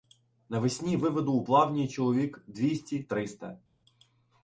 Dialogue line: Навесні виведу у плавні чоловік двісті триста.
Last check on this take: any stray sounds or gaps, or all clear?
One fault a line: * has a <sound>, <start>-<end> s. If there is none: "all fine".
all fine